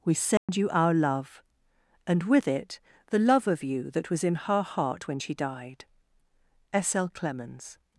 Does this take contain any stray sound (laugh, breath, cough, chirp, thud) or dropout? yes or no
yes